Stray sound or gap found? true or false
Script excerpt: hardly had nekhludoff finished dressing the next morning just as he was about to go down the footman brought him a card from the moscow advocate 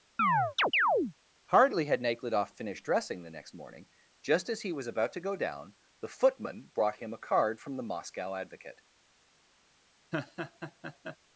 true